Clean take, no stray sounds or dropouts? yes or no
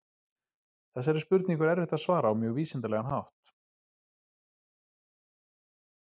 yes